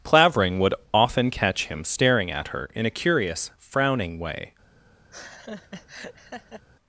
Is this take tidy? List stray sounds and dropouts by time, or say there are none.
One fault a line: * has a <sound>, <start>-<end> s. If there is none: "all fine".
* has a laugh, 5.1-6.6 s